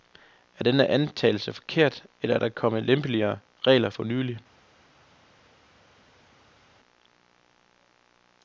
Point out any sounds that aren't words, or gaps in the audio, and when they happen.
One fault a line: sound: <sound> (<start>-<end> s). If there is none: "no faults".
no faults